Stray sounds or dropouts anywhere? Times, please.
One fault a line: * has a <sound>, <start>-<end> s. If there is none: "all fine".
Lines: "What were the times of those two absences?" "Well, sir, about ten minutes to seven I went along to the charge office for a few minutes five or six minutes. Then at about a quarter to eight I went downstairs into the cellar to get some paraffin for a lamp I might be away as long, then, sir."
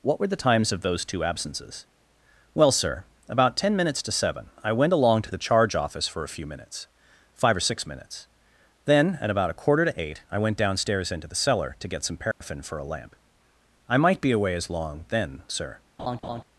* has a dropout, 12.3-12.4 s
* has a laugh, 16.0-16.4 s